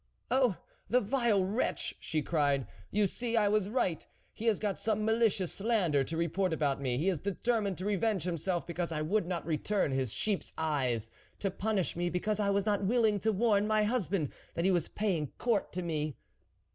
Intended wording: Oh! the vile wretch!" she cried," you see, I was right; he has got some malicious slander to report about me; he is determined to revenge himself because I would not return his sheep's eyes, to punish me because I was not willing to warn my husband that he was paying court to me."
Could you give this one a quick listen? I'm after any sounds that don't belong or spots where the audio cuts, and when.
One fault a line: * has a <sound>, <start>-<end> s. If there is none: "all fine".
all fine